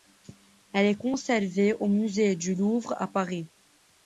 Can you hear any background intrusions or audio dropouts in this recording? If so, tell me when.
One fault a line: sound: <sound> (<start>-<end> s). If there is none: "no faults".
no faults